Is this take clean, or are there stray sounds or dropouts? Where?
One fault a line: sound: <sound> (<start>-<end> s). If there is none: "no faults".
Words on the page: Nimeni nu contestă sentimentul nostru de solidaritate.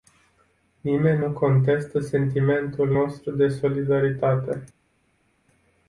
no faults